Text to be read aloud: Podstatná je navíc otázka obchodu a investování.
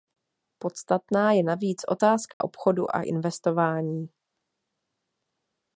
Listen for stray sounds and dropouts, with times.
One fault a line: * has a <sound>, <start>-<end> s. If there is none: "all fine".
* has a dropout, 2.3-2.4 s